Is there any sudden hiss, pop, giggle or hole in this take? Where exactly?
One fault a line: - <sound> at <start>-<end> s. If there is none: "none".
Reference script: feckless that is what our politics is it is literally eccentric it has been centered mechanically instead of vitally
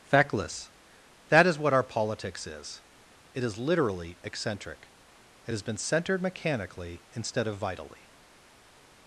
none